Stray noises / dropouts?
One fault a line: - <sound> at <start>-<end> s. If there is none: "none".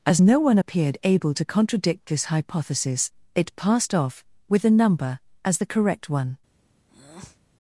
- breath at 6.9-7.4 s